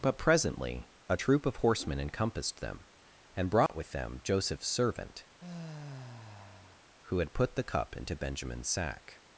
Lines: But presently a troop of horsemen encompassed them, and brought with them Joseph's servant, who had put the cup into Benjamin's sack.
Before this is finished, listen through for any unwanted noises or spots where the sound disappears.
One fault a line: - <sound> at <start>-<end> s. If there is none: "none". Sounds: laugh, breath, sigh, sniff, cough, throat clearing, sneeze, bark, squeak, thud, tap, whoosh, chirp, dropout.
- dropout at 3.7-3.7 s
- sigh at 5.4-6.8 s